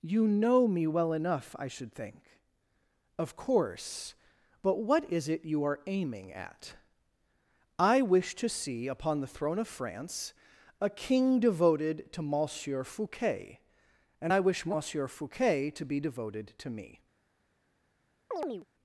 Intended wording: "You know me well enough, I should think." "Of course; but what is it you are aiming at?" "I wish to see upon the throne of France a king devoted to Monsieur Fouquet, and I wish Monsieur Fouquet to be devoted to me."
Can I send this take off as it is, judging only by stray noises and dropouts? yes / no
no